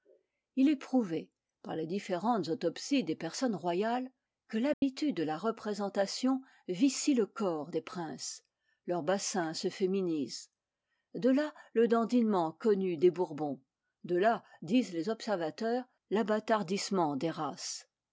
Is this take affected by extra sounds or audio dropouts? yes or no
yes